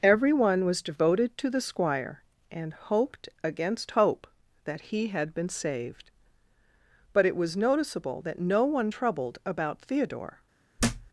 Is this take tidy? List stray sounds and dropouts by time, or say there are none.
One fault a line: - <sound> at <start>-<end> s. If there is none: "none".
- thud at 10.8-11.1 s